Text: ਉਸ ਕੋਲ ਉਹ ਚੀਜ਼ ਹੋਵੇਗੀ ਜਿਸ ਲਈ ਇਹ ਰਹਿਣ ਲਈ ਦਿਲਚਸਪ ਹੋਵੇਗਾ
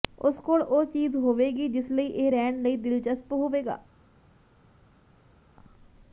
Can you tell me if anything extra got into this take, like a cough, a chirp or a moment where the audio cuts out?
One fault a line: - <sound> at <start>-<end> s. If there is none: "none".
none